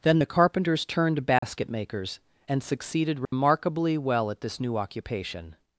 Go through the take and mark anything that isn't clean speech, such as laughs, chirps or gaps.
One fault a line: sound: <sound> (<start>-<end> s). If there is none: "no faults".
sound: dropout (1.4-1.4 s)
sound: dropout (3.2-3.3 s)